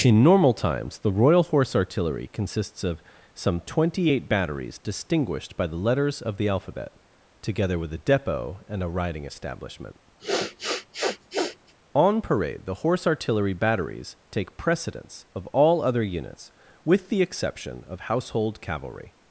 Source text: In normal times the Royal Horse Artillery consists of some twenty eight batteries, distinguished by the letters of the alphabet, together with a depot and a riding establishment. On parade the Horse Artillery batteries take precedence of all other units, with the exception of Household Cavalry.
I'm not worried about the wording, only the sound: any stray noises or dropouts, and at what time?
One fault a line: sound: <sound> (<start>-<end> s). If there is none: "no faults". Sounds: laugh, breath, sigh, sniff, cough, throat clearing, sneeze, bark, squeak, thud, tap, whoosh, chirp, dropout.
sound: sniff (10.2-11.7 s)